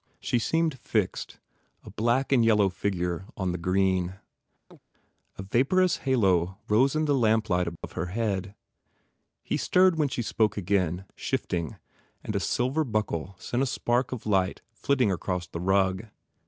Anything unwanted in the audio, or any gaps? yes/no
yes